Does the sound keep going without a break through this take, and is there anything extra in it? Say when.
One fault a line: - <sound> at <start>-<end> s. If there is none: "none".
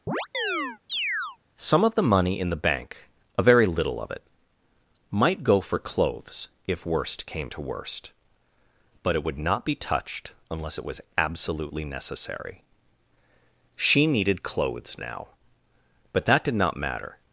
- chirp at 0.1-1.4 s